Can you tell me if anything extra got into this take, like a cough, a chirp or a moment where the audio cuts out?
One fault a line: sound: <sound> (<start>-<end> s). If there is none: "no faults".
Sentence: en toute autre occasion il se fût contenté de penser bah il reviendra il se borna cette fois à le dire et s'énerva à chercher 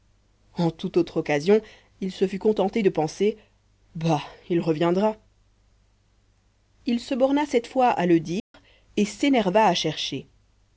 sound: dropout (8.4-8.5 s)